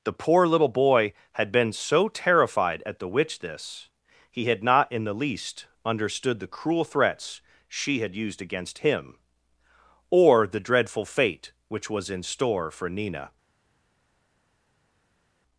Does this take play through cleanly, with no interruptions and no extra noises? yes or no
yes